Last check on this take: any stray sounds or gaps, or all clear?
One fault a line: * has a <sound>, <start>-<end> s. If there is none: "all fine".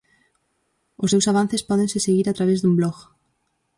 all fine